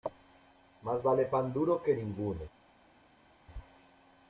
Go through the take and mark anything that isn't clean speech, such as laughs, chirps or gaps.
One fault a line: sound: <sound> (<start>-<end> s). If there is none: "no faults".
no faults